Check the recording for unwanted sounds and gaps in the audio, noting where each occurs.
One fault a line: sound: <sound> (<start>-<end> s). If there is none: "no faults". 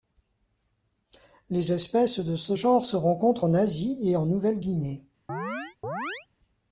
sound: chirp (5.3-6.3 s)